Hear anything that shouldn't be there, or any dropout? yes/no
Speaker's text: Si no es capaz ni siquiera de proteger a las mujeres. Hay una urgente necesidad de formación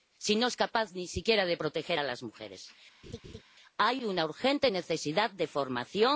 yes